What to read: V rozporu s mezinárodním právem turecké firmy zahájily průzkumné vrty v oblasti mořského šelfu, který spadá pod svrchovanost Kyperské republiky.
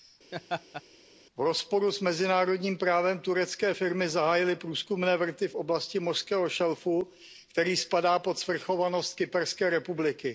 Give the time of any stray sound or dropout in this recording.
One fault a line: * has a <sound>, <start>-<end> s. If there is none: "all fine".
* has a laugh, 0.3-0.8 s